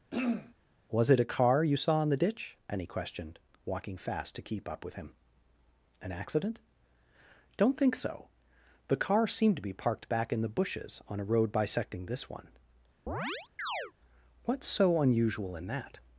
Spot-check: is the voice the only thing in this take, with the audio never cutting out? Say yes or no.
no